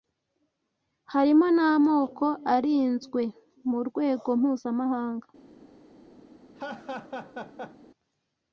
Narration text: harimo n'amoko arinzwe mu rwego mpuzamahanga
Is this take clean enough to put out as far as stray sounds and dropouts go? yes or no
no